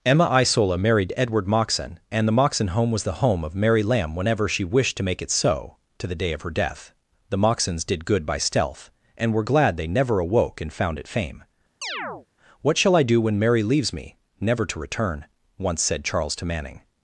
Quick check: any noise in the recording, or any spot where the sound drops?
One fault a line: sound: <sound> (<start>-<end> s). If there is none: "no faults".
sound: chirp (11.8-12.3 s)